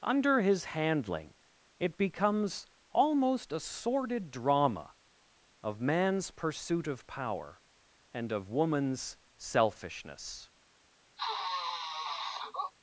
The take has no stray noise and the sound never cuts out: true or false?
false